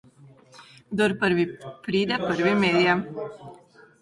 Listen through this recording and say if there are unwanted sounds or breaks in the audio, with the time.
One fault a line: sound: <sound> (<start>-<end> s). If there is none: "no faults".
no faults